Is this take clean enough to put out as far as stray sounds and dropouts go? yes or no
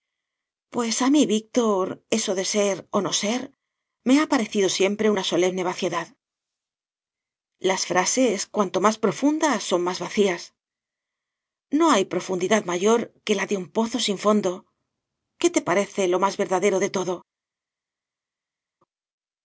yes